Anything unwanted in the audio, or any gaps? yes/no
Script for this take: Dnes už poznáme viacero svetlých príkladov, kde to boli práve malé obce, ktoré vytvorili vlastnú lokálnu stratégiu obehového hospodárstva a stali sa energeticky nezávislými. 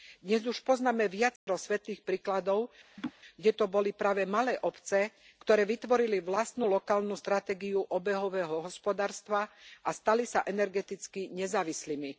yes